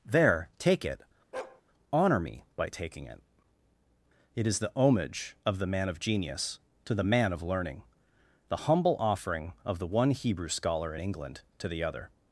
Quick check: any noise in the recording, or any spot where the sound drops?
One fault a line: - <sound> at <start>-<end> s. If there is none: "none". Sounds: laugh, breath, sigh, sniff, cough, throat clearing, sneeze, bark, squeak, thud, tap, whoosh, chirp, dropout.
- bark at 1.3-1.6 s